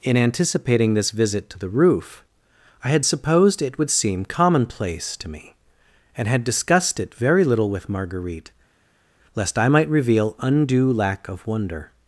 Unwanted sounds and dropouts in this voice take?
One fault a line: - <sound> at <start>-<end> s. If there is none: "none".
none